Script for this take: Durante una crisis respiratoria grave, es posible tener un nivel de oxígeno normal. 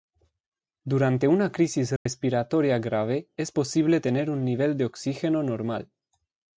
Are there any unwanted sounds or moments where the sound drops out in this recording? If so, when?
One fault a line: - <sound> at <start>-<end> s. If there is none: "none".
- dropout at 2.0-2.1 s